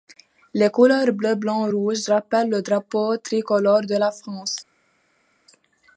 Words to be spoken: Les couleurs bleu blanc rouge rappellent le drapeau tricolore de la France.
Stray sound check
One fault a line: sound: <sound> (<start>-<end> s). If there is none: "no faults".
no faults